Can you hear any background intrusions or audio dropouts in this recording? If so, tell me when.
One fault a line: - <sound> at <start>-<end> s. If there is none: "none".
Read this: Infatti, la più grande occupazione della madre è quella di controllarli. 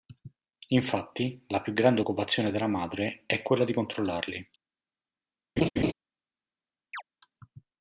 - laugh at 5.6-5.9 s
- chirp at 6.9-7.0 s